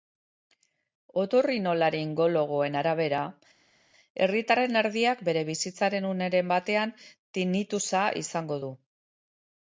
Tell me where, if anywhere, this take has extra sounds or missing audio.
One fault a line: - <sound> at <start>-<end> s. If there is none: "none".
none